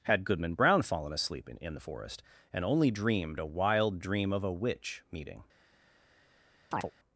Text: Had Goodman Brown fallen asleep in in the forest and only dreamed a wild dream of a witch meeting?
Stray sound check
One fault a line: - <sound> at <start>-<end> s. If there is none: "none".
- chirp at 6.7-6.9 s